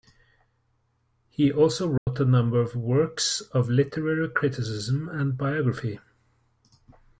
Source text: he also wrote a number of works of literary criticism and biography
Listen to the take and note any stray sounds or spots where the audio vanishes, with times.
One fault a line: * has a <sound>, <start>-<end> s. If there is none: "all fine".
* has a dropout, 2.0-2.1 s